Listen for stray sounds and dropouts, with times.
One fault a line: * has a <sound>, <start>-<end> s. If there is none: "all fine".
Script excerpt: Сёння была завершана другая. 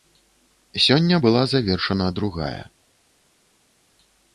all fine